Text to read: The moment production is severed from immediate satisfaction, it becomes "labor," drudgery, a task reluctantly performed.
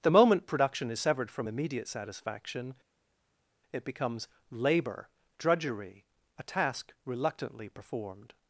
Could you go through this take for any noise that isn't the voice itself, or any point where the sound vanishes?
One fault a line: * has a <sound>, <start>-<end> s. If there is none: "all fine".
all fine